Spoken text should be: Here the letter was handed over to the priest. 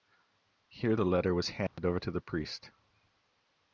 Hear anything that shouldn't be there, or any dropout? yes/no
yes